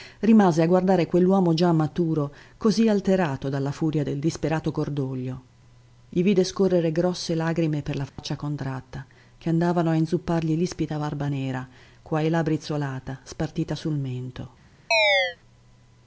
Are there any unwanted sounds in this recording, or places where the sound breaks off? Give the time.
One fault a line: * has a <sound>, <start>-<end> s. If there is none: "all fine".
* has a dropout, 8.1-8.2 s
* has a chirp, 14.9-15.4 s